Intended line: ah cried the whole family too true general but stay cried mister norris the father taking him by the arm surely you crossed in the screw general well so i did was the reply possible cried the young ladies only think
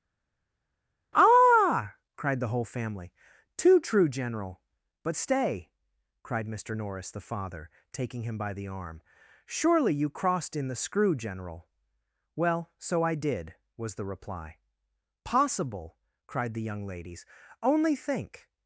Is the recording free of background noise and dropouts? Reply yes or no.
yes